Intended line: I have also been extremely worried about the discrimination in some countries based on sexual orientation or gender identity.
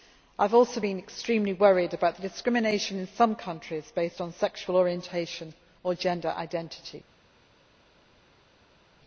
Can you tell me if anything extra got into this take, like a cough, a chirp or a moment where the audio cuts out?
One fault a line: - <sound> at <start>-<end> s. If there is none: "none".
none